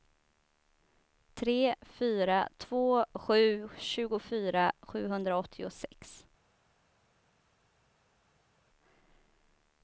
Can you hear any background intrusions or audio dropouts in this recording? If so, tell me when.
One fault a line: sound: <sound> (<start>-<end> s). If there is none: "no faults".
no faults